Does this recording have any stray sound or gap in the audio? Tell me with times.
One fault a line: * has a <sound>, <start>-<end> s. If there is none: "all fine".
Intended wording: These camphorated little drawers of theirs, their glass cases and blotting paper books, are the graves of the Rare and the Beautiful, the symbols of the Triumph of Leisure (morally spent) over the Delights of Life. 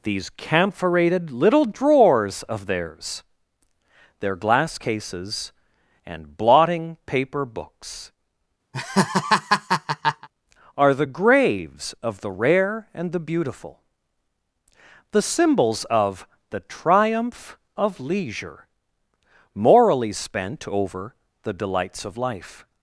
* has a laugh, 8.7-10.3 s